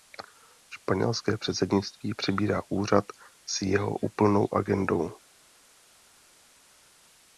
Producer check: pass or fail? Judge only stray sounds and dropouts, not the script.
pass